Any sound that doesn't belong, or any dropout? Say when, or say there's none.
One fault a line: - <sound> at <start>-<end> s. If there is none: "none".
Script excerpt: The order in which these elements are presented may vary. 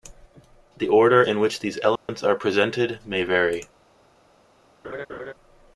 - dropout at 2.0-2.1 s
- laugh at 4.8-5.3 s